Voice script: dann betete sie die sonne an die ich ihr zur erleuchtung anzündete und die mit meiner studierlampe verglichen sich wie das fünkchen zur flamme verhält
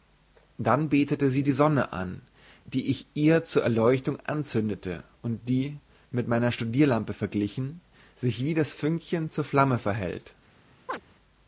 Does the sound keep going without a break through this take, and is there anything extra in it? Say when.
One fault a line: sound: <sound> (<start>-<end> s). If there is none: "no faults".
sound: chirp (10.9-11.0 s)